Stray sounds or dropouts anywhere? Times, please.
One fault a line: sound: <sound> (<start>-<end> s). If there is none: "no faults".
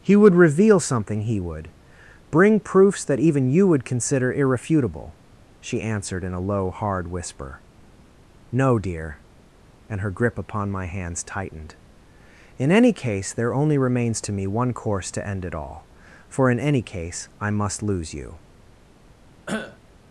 sound: cough (19.5-19.8 s)